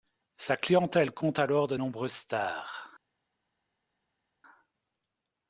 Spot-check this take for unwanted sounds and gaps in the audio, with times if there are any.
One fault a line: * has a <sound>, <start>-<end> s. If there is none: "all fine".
all fine